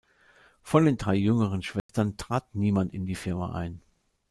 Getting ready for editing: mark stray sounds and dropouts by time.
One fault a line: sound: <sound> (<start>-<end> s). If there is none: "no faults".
sound: dropout (1.8-1.9 s)